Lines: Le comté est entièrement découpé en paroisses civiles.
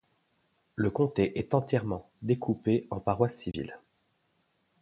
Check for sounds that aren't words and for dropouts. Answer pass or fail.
fail